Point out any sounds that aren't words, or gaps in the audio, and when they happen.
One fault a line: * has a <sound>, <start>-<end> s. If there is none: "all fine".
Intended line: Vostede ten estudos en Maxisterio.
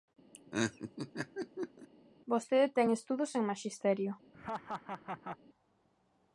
* has a laugh, 0.3-1.9 s
* has a laugh, 4.3-5.4 s